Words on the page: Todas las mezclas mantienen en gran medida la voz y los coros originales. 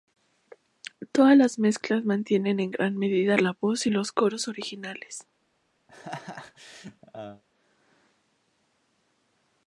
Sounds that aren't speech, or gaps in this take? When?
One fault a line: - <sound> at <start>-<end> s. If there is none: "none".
- laugh at 5.9-7.4 s